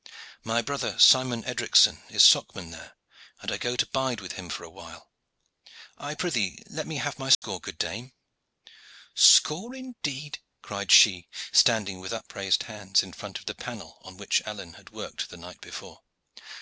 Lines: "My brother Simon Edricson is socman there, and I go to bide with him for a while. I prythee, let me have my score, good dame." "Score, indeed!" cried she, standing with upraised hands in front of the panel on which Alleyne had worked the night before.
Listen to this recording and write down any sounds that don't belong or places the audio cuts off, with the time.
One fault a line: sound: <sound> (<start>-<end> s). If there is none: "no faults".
sound: dropout (7.3-7.4 s)